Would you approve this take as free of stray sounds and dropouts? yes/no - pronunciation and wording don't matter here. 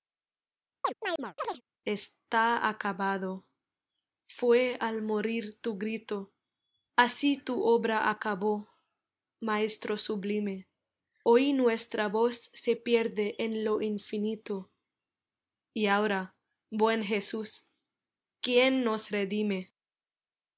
no